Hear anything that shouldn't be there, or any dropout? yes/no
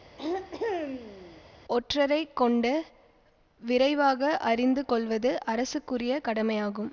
yes